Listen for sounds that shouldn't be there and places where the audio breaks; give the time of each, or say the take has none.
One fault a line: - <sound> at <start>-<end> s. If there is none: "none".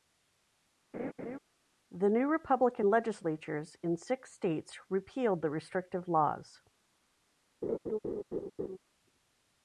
- laugh at 0.9-1.4 s
- laugh at 7.6-8.8 s